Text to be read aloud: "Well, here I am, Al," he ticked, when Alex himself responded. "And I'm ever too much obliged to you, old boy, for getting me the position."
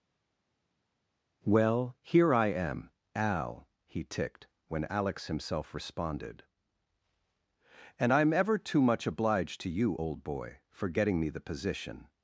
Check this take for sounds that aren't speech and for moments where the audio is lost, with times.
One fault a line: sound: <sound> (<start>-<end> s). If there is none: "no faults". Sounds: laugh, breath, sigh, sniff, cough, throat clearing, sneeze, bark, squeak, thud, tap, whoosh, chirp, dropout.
no faults